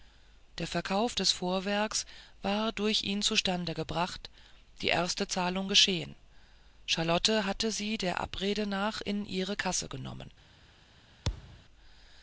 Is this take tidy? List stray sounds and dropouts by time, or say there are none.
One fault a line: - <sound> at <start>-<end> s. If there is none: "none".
- thud at 11.2-11.6 s